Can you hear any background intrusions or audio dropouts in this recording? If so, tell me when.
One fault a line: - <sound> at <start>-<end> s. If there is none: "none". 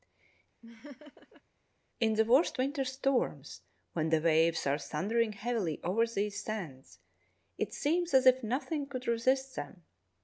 - laugh at 0.6-1.4 s